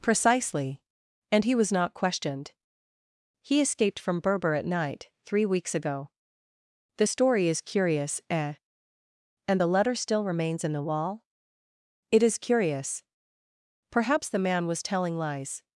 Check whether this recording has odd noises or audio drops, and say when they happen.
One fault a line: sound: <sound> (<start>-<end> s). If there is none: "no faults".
no faults